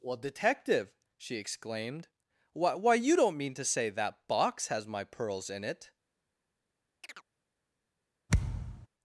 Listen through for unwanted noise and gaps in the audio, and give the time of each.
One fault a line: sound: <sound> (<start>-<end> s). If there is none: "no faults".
sound: chirp (7.0-7.2 s)
sound: thud (8.3-8.9 s)